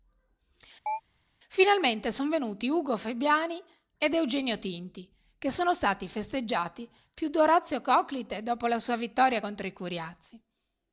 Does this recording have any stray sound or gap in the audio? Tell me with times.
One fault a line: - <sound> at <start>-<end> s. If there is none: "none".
- chirp at 0.9-1.0 s